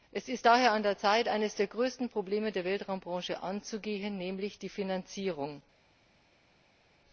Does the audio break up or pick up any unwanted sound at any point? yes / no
no